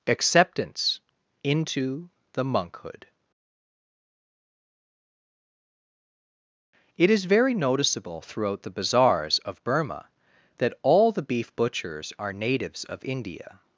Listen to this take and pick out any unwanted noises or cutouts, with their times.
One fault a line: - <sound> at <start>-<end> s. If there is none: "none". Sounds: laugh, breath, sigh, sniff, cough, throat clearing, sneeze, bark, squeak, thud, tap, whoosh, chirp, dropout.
none